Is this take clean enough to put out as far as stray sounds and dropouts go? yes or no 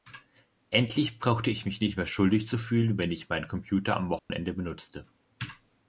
no